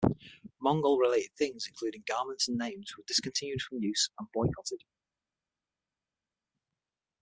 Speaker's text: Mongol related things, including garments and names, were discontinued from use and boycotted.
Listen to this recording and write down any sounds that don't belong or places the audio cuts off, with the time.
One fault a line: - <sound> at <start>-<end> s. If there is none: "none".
none